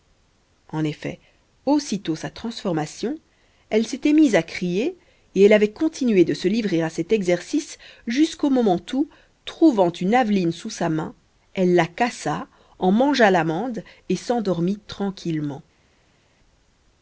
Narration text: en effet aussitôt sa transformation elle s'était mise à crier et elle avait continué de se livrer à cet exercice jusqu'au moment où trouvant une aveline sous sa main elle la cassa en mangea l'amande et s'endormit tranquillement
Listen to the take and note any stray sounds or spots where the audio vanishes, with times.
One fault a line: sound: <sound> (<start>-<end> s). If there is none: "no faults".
no faults